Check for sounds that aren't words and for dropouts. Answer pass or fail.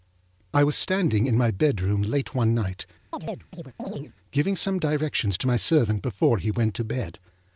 fail